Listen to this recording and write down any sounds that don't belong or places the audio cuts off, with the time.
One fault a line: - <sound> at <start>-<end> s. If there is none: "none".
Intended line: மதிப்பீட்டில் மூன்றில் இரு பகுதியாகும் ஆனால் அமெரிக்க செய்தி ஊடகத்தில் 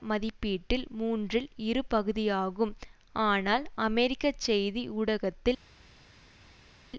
none